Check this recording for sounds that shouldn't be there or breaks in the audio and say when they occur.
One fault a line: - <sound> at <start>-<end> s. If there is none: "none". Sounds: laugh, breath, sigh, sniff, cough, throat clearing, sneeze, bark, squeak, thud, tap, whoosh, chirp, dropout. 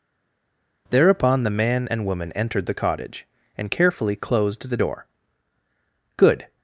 none